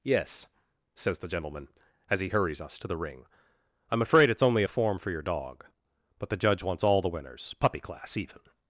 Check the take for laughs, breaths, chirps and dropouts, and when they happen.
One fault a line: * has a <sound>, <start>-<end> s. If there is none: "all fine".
all fine